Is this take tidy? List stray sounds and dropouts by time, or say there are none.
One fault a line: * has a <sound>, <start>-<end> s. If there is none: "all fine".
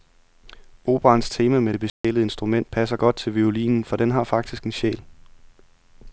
* has a dropout, 1.9-2.0 s